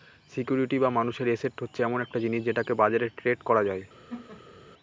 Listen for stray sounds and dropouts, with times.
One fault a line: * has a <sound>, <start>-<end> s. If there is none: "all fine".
* has a laugh, 4.1-4.6 s